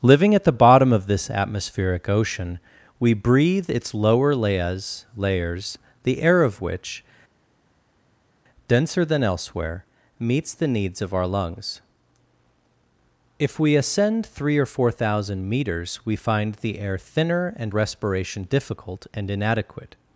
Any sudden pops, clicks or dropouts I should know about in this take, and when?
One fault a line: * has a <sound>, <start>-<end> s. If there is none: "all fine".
all fine